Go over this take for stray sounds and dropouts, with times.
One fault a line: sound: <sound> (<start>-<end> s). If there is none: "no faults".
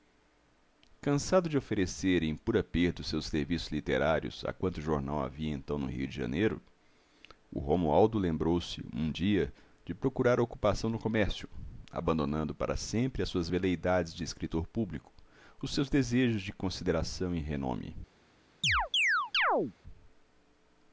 sound: chirp (18.6-19.7 s)